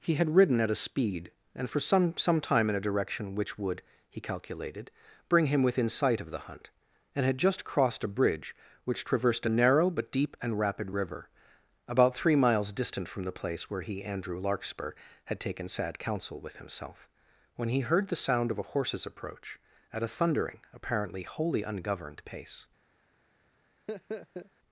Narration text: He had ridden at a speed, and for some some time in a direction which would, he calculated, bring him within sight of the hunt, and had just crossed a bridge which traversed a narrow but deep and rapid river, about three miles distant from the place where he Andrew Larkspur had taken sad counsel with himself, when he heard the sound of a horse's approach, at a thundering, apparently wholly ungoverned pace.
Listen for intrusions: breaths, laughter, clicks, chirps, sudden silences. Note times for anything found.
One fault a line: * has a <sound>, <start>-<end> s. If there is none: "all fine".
* has a laugh, 23.9-24.5 s